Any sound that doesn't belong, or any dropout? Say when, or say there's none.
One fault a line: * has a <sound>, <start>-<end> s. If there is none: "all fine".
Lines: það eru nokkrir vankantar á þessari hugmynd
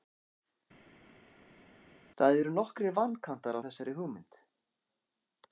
all fine